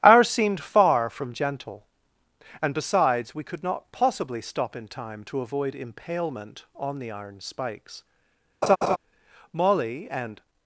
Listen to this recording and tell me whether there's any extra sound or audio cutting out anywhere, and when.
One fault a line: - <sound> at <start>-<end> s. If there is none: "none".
- laugh at 8.6-9.0 s